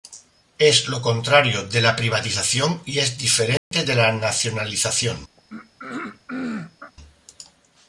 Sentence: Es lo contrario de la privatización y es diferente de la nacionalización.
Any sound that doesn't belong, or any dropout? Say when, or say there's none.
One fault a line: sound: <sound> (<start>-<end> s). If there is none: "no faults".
sound: dropout (3.6-3.7 s)
sound: throat clearing (5.4-6.9 s)